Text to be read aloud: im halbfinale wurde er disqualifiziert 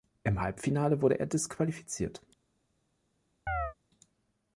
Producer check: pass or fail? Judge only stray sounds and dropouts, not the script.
fail